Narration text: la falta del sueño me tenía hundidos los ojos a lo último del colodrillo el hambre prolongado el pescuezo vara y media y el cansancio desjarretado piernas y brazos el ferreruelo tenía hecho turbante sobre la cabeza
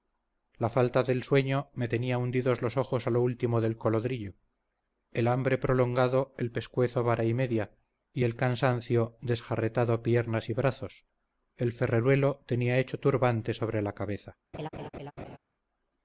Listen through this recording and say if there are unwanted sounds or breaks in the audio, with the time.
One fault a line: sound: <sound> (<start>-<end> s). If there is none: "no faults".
sound: laugh (14.5-15.4 s)